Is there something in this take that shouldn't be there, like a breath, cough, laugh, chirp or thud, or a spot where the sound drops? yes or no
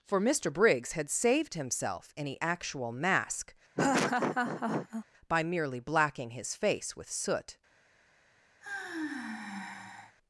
yes